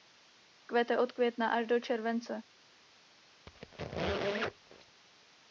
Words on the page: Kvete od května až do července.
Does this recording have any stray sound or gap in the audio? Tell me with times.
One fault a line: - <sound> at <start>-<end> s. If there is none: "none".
- squeak at 3.5-5.0 s